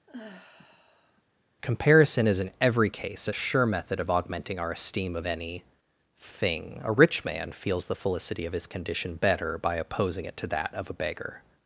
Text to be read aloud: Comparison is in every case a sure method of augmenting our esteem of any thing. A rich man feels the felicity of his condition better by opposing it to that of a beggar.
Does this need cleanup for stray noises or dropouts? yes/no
yes